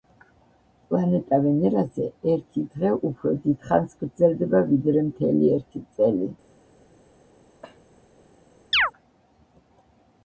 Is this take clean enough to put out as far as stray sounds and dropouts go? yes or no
no